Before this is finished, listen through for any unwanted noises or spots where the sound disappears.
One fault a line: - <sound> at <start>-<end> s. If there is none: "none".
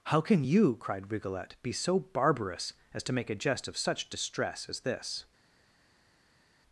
none